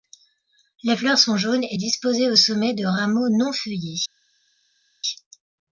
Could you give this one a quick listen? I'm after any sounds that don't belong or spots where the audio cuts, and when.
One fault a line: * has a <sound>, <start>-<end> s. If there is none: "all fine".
all fine